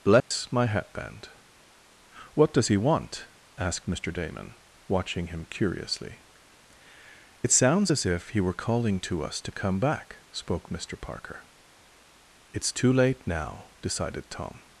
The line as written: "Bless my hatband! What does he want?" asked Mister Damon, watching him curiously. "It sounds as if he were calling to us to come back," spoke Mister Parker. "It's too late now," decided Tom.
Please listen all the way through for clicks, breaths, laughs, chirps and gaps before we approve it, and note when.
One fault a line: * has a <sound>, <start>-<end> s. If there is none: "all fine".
* has a dropout, 0.2-0.3 s